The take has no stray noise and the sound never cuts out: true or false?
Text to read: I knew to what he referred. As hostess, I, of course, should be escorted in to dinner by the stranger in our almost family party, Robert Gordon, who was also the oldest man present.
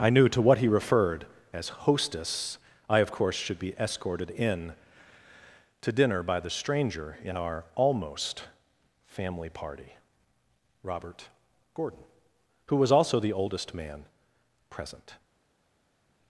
true